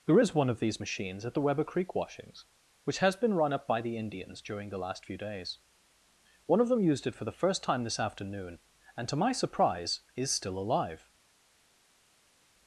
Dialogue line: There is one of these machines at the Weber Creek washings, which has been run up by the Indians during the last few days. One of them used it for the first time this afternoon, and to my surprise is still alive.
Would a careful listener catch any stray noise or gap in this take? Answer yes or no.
no